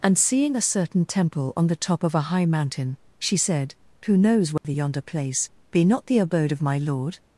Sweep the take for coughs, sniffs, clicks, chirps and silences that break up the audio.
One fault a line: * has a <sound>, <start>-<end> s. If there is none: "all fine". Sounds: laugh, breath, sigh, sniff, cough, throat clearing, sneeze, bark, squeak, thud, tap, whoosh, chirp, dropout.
* has a dropout, 4.6-4.6 s